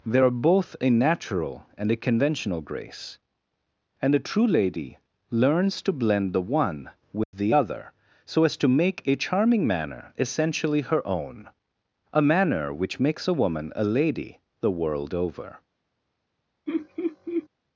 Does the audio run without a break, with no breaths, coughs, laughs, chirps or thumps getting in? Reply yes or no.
no